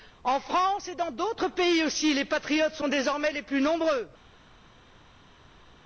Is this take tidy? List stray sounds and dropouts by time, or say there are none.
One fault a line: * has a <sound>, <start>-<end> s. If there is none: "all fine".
all fine